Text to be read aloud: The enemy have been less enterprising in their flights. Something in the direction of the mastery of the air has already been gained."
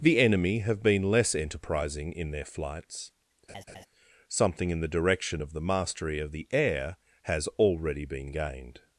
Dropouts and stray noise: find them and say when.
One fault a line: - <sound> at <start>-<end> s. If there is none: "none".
- laugh at 3.5-3.9 s